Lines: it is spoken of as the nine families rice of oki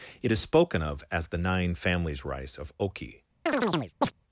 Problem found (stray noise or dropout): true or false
true